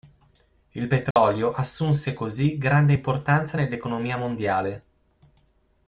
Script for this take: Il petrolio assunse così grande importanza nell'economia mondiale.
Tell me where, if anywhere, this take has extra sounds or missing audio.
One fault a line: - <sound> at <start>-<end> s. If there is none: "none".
- dropout at 1.1-1.2 s